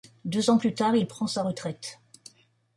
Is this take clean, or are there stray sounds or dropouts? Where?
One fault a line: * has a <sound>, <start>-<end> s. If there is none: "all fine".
all fine